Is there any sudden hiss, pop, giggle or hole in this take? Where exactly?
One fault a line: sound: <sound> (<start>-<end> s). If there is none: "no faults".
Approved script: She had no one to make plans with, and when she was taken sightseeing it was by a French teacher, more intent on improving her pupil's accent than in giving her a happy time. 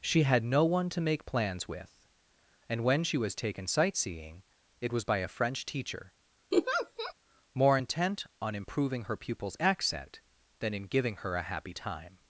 sound: laugh (6.5-7.1 s)